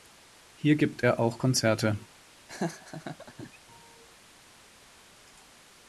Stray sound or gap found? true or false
true